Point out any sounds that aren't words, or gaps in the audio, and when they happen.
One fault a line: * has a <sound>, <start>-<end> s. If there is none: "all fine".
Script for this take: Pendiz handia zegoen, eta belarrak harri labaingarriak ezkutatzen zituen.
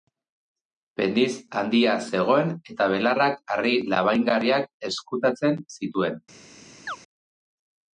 * has a chirp, 6.9-7.0 s